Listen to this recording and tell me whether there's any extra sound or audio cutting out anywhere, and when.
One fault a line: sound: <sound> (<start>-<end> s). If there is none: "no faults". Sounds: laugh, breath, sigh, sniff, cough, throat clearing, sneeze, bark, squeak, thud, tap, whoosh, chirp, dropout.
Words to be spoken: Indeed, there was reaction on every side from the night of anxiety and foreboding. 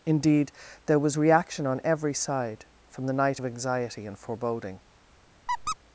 sound: squeak (5.5-5.8 s)